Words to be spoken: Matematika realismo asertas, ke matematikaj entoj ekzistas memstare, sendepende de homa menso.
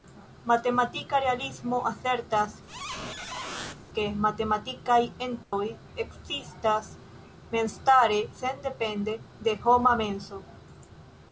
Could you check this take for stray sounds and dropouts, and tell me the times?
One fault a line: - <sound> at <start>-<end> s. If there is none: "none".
- squeak at 2.7-3.8 s
- dropout at 5.4-5.5 s